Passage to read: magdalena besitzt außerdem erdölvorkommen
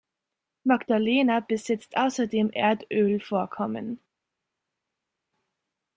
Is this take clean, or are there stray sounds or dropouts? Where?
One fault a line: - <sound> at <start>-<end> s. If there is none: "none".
none